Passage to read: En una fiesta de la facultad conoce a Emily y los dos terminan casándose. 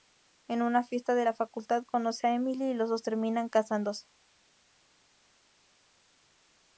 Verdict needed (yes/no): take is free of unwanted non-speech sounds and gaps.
yes